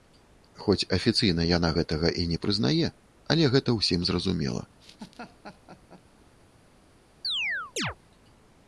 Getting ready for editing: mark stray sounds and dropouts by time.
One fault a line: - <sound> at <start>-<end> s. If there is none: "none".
- laugh at 4.8-6.0 s
- chirp at 7.2-8.0 s